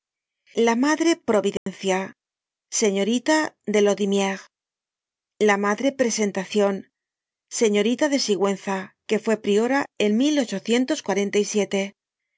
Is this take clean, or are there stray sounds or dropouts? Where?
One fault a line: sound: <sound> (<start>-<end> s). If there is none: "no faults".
sound: dropout (1.6-1.7 s)